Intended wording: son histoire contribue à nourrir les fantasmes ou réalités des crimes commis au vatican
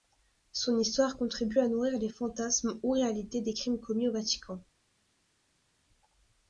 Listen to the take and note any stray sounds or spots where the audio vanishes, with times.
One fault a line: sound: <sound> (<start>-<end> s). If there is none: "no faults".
no faults